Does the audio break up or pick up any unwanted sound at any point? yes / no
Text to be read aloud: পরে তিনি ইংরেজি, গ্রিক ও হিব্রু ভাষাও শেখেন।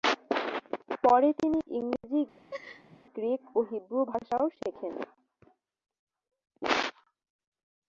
yes